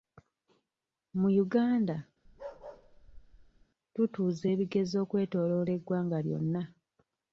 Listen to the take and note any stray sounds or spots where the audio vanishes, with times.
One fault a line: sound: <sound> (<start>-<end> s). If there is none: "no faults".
sound: bark (2.2-3.7 s)